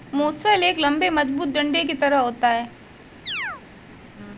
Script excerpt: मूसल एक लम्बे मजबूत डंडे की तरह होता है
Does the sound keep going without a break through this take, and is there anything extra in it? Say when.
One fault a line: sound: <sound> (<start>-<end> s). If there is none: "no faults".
sound: chirp (3.3-3.6 s)